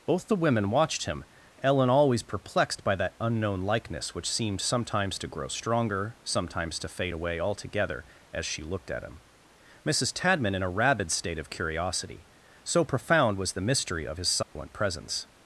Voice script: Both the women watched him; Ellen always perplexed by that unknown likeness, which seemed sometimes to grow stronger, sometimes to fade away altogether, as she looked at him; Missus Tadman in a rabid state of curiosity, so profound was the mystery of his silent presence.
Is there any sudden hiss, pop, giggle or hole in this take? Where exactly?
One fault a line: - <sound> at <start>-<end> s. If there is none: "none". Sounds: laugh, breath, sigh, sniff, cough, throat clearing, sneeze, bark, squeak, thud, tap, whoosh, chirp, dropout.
- dropout at 14.4-14.6 s